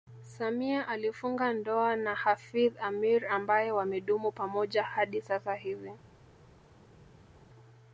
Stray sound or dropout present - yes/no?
no